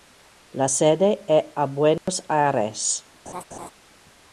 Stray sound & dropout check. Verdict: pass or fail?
fail